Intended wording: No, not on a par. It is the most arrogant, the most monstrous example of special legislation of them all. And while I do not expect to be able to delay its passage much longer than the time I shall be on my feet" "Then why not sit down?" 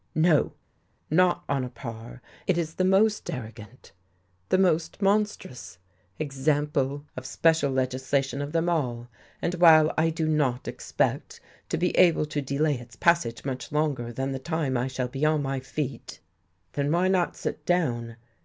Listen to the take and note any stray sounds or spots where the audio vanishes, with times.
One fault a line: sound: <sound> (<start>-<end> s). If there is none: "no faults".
no faults